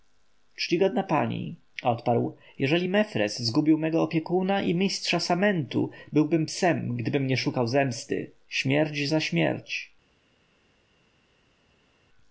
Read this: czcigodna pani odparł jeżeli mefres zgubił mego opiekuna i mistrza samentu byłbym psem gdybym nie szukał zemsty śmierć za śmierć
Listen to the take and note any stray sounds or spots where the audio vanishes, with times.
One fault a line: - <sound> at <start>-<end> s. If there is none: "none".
none